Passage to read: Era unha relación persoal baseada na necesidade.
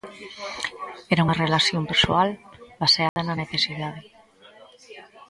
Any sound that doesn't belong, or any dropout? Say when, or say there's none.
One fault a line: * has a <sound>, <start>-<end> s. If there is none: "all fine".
* has a dropout, 3.1-3.2 s